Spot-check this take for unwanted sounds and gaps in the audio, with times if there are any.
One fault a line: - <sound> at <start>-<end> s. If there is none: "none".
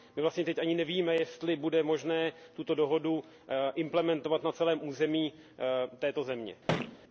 - thud at 6.7-7.0 s